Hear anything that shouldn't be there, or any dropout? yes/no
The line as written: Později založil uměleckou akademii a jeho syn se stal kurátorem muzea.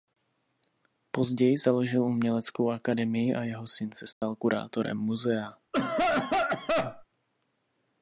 yes